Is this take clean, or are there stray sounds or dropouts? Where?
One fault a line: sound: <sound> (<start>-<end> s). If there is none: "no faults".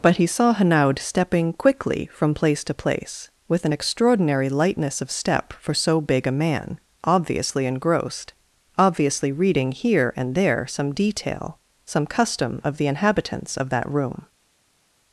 no faults